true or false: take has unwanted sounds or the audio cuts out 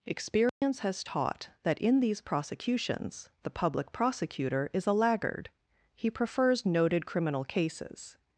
true